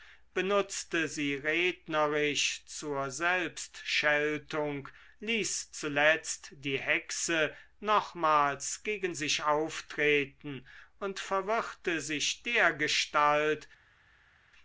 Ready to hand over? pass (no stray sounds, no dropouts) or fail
pass